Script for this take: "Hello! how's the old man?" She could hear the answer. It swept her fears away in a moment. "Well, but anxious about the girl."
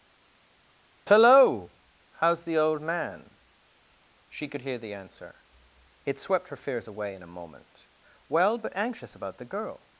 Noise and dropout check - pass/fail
pass